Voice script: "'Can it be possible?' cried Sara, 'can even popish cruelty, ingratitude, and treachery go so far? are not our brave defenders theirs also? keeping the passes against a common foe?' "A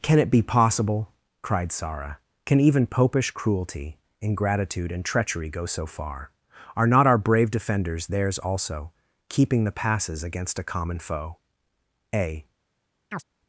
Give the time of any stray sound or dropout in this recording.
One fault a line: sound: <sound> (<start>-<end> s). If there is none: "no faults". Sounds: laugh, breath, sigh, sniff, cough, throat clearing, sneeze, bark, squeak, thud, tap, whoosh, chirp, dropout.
sound: chirp (13.1-13.2 s)